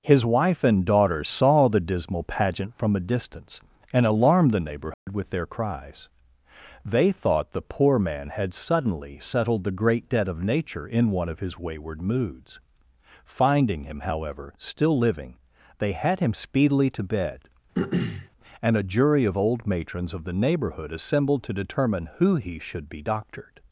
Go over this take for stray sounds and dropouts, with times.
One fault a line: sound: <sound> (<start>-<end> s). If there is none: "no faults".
sound: dropout (4.9-5.1 s)
sound: throat clearing (17.7-18.3 s)